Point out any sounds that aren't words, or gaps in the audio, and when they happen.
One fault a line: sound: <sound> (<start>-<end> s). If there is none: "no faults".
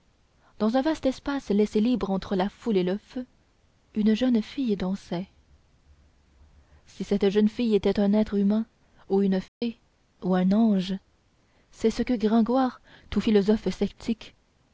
sound: dropout (9.5-9.6 s)